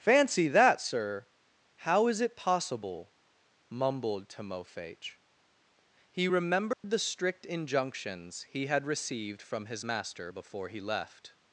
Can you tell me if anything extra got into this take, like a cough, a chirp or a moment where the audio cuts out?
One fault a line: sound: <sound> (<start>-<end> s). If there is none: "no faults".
sound: dropout (6.7-6.8 s)